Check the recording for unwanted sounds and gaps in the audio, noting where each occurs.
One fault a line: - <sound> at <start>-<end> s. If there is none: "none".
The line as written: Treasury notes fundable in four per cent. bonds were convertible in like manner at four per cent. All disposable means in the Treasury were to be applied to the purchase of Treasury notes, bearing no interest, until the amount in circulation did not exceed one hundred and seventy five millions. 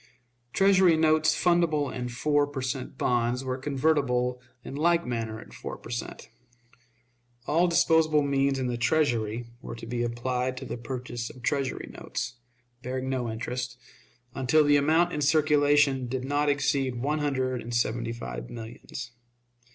none